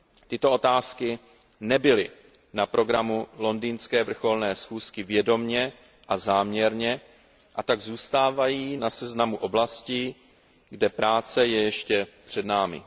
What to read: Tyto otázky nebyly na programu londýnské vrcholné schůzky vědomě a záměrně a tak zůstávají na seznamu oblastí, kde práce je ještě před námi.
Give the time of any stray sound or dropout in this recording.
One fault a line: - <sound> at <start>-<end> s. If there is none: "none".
none